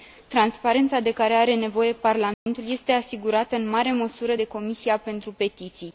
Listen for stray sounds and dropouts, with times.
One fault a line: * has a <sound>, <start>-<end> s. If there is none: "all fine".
* has a dropout, 2.3-2.5 s